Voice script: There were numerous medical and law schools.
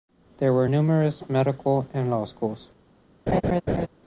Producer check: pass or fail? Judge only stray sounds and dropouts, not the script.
fail